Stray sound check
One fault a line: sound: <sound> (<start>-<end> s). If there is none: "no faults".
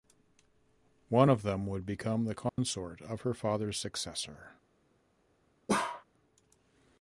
sound: dropout (2.5-2.6 s)
sound: bark (5.7-6.0 s)